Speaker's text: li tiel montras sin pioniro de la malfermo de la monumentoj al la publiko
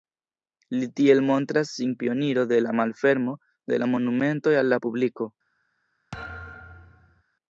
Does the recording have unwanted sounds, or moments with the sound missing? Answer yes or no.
yes